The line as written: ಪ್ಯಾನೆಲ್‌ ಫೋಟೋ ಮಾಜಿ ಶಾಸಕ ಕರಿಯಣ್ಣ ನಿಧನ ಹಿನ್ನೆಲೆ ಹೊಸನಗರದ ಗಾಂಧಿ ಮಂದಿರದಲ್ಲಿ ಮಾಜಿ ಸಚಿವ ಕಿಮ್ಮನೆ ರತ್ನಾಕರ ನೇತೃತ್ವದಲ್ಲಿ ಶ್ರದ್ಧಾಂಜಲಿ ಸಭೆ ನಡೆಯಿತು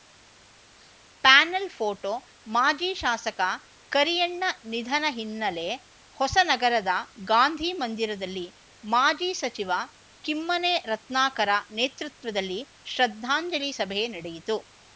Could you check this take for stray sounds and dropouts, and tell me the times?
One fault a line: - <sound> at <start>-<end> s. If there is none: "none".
none